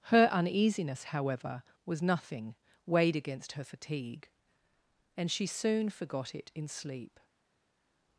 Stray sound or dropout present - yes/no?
no